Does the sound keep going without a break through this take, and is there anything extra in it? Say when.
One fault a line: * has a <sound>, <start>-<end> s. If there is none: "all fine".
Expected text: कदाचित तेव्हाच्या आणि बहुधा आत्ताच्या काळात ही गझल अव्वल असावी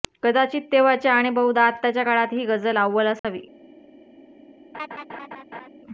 * has a dropout, 3.2-3.2 s
* has a laugh, 4.7-5.7 s